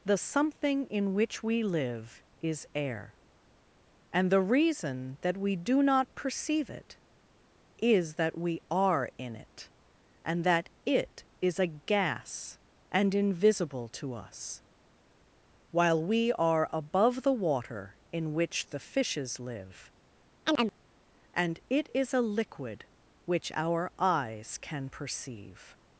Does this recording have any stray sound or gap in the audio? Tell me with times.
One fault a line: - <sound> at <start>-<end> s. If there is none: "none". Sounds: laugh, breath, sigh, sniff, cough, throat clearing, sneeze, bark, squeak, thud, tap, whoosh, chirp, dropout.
- chirp at 20.5-20.7 s